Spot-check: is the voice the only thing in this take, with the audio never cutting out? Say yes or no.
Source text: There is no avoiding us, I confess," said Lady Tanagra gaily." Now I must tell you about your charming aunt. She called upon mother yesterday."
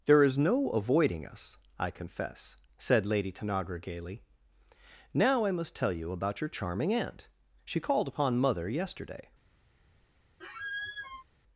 no